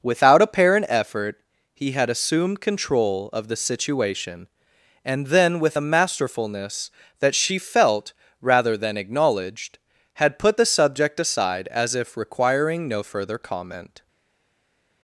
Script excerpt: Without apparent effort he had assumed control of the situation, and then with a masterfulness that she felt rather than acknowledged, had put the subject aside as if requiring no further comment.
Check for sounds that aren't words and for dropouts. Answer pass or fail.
pass